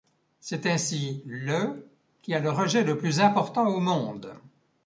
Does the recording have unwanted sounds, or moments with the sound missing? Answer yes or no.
no